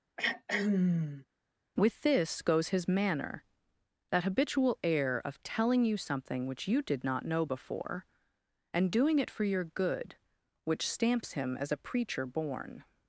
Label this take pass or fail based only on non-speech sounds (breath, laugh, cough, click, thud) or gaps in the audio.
fail